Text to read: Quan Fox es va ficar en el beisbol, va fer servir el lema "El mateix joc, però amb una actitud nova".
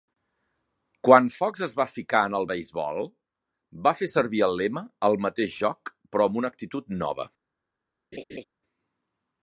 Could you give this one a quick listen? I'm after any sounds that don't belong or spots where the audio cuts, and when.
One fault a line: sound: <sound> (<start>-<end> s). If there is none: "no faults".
sound: laugh (8.1-8.4 s)